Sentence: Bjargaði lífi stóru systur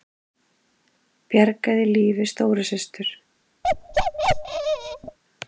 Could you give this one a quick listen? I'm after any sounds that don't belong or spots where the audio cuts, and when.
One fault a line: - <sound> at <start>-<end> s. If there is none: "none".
- bark at 3.6-5.2 s